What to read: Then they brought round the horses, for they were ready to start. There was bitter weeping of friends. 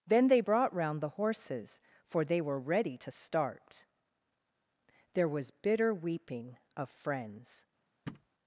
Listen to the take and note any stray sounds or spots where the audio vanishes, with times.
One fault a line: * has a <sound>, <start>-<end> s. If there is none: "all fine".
* has a thud, 8.1-8.3 s